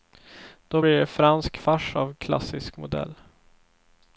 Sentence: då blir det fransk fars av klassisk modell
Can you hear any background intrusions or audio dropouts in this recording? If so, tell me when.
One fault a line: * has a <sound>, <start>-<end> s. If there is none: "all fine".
all fine